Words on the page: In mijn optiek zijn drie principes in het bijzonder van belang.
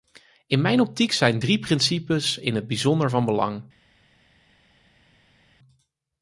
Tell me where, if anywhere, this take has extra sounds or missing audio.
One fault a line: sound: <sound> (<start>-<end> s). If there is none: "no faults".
no faults